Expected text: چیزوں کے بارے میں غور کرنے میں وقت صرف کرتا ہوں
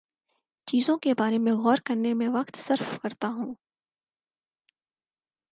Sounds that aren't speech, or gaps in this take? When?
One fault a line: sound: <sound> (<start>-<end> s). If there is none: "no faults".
no faults